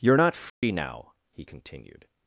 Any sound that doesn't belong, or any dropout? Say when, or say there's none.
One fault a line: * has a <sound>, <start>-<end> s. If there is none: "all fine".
* has a dropout, 0.5-0.6 s